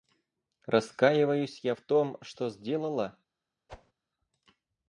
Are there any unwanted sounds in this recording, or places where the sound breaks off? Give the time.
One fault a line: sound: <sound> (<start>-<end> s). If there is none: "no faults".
sound: whoosh (3.7-3.9 s)